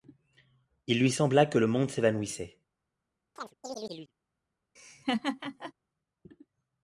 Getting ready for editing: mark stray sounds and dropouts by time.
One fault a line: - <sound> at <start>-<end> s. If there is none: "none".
- chirp at 3.4-4.1 s
- laugh at 4.8-5.7 s